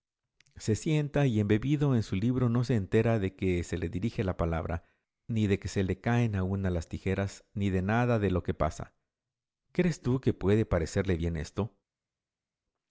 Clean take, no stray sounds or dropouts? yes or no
yes